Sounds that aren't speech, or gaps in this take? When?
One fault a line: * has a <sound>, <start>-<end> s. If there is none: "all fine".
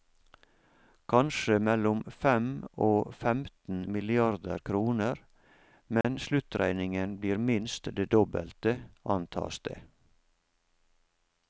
* has a dropout, 6.0-6.0 s